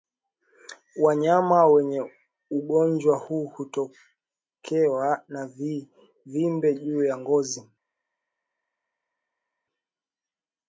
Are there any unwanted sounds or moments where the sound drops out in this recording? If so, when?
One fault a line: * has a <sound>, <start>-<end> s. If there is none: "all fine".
all fine